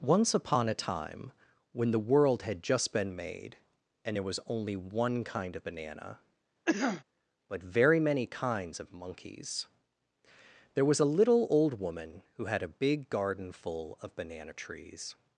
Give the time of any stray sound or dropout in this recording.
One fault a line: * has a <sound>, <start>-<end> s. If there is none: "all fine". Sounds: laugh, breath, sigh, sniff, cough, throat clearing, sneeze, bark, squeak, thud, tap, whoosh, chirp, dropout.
* has a cough, 6.7-7.0 s